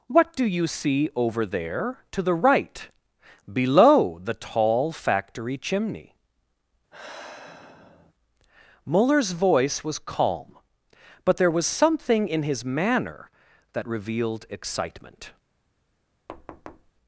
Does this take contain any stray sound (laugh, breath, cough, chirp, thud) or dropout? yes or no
yes